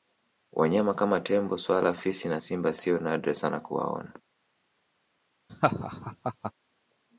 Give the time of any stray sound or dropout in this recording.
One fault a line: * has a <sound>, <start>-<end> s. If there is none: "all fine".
* has a laugh, 5.5-6.5 s